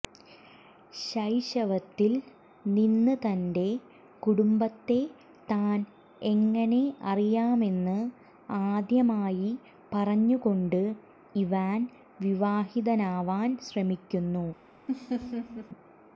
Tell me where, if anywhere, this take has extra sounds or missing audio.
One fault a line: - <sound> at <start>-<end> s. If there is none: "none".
- laugh at 14.9-15.7 s